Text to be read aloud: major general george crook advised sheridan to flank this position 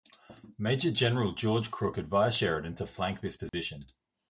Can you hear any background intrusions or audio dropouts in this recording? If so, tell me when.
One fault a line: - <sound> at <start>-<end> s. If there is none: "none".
- dropout at 3.5-3.5 s